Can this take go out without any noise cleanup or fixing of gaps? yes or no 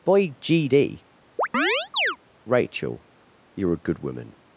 no